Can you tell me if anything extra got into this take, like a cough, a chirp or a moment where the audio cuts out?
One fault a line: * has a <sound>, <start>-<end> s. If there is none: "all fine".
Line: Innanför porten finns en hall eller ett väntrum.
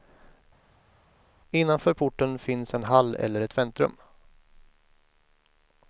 all fine